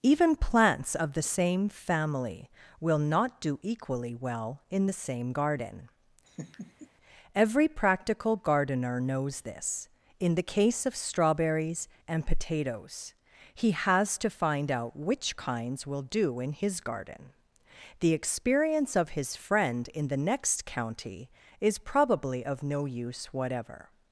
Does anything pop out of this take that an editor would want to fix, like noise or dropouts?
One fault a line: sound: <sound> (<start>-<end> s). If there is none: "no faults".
sound: laugh (6.3-6.9 s)